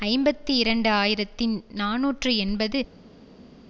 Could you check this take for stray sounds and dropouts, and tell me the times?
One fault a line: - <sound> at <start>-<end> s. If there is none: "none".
none